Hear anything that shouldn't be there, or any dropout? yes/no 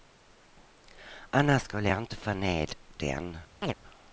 yes